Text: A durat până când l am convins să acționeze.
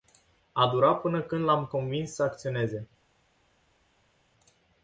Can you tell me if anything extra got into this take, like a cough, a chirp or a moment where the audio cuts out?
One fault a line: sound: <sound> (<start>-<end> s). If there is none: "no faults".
no faults